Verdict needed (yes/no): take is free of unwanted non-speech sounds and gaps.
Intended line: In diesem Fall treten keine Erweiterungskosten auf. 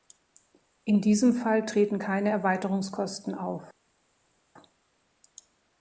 yes